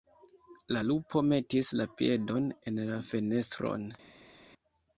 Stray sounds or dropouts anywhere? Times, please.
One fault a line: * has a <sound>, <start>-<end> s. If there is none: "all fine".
all fine